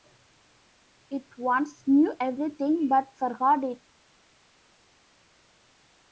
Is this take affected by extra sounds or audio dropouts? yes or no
no